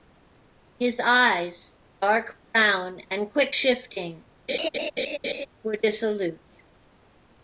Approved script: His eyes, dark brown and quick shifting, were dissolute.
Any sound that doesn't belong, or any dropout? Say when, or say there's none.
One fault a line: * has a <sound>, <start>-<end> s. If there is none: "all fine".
* has a laugh, 4.5-5.5 s